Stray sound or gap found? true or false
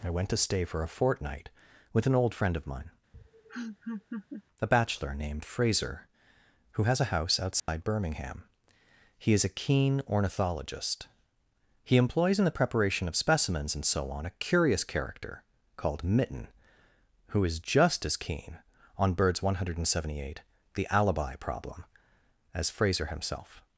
true